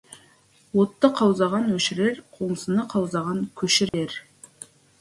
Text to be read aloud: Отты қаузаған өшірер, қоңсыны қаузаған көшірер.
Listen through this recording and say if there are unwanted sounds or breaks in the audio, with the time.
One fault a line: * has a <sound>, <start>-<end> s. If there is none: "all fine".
* has a dropout, 3.9-3.9 s